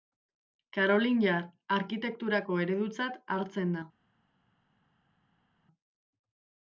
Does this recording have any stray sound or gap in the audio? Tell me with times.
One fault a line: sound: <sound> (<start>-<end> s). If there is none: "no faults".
no faults